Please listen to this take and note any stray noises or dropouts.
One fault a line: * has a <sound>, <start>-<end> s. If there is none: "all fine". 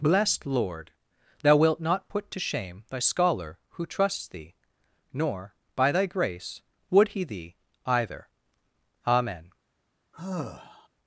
* has a sigh, 10.1-10.9 s